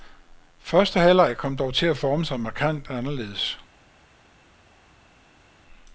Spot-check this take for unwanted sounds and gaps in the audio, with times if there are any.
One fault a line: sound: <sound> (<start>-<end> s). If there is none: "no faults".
no faults